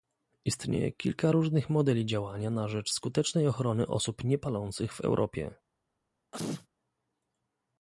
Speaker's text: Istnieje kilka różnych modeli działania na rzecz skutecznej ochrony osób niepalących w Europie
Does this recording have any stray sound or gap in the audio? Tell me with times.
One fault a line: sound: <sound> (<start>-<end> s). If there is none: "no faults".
sound: sneeze (6.3-6.7 s)